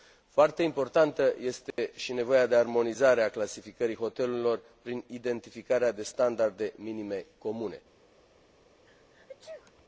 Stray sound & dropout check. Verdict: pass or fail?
fail